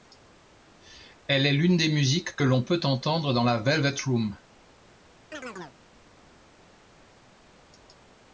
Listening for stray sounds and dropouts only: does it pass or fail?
fail